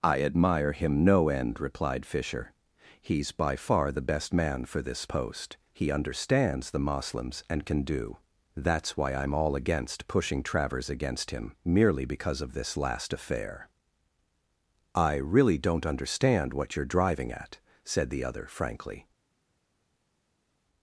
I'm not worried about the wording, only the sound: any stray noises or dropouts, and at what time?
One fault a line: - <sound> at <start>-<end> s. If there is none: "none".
none